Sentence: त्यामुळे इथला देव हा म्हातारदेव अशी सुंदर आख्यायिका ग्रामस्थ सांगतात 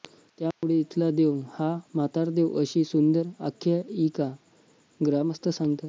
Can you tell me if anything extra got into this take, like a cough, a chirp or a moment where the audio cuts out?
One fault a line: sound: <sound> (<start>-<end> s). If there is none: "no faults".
sound: dropout (0.5-0.6 s)